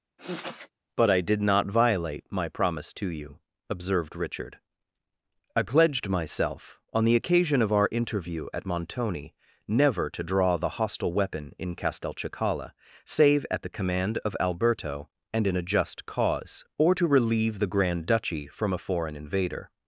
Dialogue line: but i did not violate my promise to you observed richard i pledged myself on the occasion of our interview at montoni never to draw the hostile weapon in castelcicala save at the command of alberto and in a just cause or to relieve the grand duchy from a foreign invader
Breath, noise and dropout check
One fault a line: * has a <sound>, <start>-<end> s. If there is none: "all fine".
* has a sniff, 0.2-0.7 s